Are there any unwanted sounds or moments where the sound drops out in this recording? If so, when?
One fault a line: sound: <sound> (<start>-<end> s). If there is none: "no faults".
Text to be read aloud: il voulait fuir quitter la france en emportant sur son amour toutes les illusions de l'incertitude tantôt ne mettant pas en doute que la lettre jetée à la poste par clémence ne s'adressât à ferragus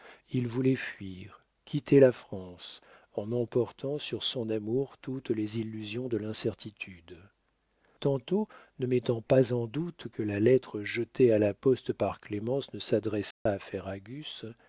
sound: dropout (13.3-13.5 s)